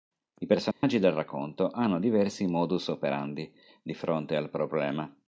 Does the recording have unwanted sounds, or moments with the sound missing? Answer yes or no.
yes